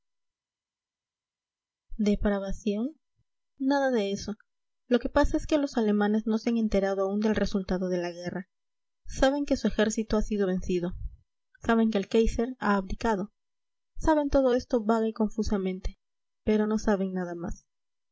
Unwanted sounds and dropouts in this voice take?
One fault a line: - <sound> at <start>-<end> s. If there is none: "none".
none